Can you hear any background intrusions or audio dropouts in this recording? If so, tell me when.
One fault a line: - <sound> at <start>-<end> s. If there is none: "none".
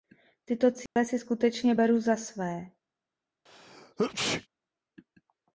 - dropout at 0.9-1.0 s
- sneeze at 3.5-4.5 s